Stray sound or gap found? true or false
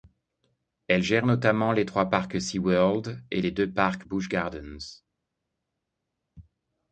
false